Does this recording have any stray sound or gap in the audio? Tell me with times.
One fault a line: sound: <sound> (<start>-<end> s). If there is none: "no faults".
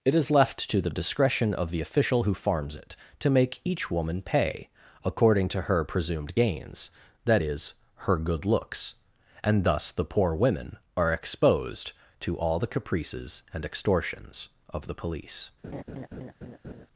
sound: laugh (15.6-16.9 s)